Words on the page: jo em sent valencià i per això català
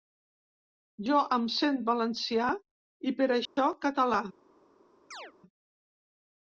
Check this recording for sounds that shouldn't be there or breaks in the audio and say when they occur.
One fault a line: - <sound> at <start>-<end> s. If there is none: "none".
- dropout at 3.5-3.6 s
- chirp at 5.1-5.3 s